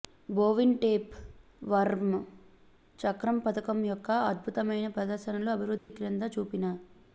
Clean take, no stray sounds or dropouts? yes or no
no